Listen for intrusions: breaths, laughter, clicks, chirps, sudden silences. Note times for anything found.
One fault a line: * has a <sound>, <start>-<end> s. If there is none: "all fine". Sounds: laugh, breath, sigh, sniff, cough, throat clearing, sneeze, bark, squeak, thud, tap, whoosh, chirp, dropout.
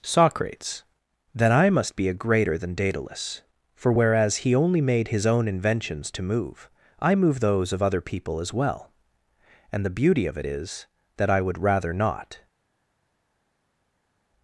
all fine